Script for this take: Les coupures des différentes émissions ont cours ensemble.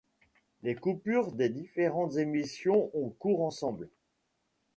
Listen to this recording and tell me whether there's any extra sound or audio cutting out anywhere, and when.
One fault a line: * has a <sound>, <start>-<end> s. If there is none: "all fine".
all fine